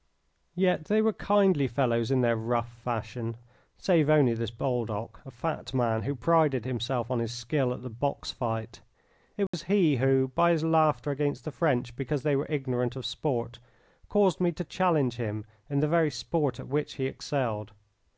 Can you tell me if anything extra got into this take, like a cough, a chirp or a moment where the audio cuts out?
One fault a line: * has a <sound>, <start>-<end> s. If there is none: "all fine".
* has a dropout, 9.5-9.5 s